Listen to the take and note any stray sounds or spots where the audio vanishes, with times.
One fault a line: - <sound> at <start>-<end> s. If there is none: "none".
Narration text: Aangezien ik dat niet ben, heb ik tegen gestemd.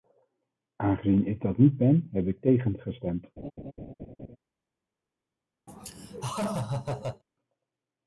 - laugh at 3.4-4.4 s
- laugh at 5.7-7.2 s